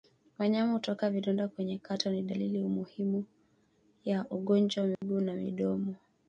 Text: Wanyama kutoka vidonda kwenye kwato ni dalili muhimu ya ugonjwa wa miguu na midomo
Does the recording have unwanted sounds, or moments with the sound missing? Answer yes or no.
yes